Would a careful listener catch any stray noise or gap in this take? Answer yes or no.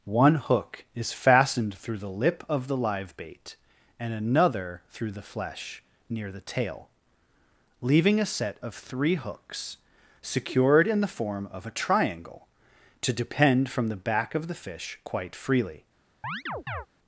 yes